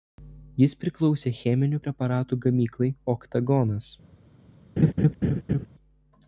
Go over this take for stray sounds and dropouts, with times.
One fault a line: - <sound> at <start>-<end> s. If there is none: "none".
- laugh at 4.8-5.7 s